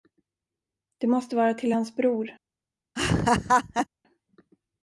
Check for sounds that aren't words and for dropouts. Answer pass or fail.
fail